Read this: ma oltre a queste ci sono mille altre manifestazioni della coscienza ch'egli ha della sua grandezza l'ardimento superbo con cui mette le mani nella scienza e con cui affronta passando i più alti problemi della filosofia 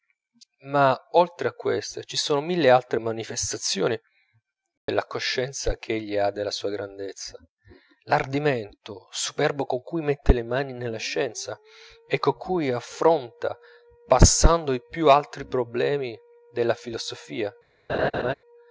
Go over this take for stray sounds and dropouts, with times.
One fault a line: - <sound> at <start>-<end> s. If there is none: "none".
- dropout at 4.8-4.9 s
- laugh at 17.9-18.3 s